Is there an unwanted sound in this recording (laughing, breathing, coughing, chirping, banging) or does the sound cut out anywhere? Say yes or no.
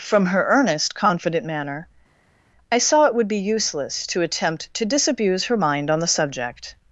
no